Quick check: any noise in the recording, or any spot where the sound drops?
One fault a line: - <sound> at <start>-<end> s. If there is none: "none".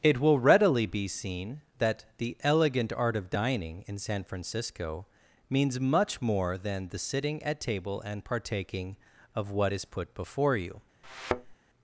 - thud at 11.0-11.6 s